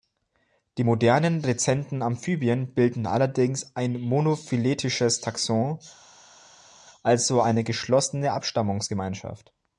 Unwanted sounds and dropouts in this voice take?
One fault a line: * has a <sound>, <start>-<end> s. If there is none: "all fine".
all fine